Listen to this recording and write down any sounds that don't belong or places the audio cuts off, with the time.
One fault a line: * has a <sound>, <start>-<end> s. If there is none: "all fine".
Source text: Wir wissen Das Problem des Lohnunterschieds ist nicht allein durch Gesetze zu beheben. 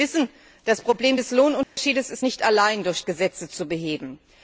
* has a dropout, 1.6-1.8 s